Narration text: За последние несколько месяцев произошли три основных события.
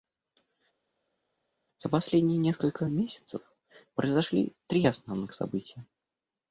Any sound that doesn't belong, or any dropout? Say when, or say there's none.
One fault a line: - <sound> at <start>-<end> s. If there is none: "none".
none